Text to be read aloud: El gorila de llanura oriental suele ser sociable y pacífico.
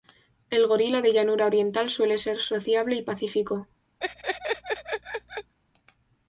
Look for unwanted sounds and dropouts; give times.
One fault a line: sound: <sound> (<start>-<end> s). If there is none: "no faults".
sound: laugh (4.0-5.5 s)